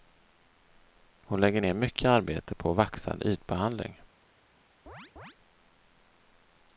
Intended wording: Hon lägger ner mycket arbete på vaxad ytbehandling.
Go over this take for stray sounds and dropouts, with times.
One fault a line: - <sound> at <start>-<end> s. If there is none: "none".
- chirp at 4.9-5.4 s